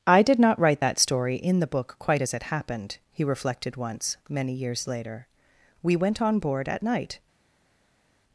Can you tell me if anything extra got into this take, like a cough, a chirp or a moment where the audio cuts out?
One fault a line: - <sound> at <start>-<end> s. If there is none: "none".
none